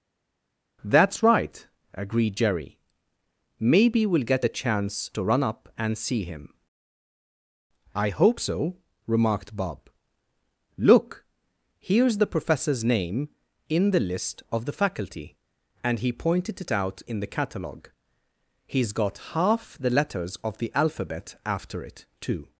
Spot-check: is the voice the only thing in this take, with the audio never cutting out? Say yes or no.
yes